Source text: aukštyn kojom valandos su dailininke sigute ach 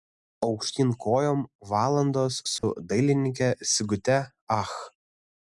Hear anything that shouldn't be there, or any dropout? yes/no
yes